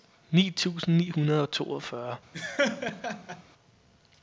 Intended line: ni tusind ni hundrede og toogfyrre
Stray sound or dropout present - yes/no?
yes